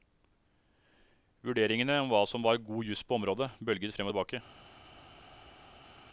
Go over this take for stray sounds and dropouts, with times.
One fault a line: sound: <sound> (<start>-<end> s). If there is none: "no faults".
no faults